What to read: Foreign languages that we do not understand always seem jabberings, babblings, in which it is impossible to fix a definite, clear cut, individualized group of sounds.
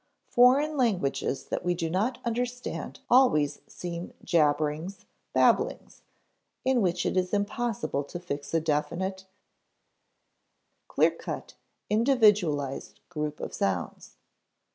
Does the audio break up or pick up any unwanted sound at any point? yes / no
no